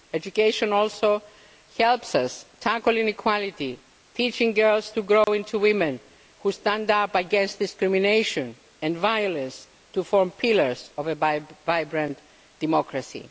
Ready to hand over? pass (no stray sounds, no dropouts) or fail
fail